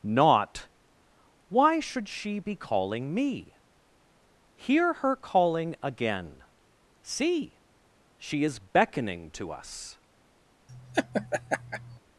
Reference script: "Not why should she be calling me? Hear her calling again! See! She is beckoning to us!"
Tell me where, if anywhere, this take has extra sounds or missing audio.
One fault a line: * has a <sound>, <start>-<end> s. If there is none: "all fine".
* has a laugh, 10.7-12.0 s